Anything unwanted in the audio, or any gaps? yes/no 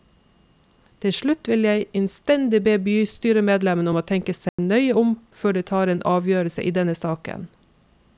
yes